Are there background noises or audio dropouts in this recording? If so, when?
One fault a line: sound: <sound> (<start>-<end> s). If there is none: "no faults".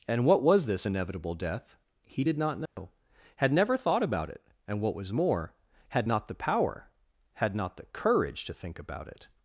sound: dropout (2.7-2.8 s)